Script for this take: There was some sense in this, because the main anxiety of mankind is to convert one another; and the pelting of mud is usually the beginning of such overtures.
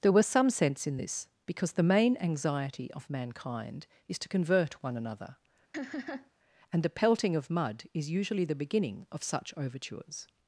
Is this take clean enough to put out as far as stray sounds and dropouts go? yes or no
no